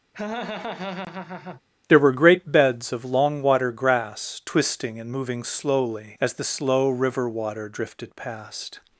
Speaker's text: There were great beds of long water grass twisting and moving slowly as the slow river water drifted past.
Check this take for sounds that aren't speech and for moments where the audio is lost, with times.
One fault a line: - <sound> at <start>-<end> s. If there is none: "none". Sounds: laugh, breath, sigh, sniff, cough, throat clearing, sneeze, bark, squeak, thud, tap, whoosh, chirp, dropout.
- laugh at 0.1-1.6 s